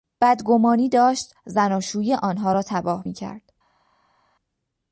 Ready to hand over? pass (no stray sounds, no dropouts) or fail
pass